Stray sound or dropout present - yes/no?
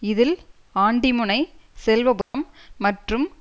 yes